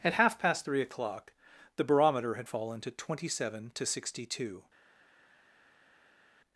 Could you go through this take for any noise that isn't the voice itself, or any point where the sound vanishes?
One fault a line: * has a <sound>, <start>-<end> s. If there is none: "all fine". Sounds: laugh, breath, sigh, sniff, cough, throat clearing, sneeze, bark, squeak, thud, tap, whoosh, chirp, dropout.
all fine